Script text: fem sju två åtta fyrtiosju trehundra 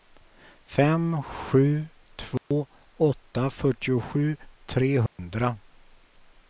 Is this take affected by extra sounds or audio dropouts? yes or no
yes